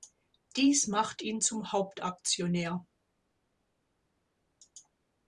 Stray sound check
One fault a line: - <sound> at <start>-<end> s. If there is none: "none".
none